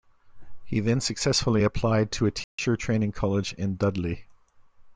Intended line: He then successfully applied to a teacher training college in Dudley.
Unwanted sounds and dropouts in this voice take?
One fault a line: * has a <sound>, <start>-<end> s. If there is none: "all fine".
* has a dropout, 2.4-2.6 s